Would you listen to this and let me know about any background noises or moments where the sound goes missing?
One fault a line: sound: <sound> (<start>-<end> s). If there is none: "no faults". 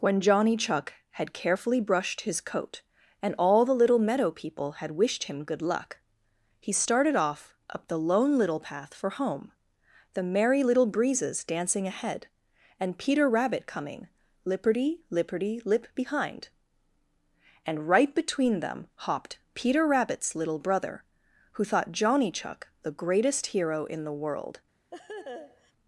sound: laugh (24.9-25.7 s)